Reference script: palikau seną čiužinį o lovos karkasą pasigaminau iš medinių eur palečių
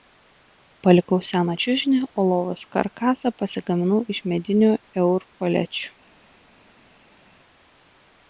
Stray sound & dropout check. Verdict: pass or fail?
pass